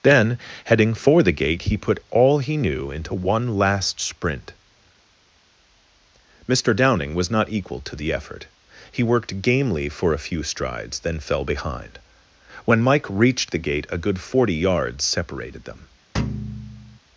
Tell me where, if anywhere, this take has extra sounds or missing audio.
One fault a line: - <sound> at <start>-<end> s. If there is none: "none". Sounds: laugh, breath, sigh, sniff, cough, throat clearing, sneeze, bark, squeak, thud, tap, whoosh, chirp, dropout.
- thud at 16.1-17.0 s